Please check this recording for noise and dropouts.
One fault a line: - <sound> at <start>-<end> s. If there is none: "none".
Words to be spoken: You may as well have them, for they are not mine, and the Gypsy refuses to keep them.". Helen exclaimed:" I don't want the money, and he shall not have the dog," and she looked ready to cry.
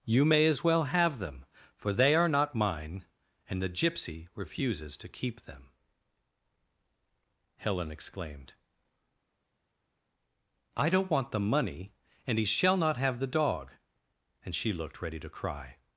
none